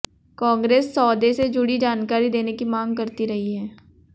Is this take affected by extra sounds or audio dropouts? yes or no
no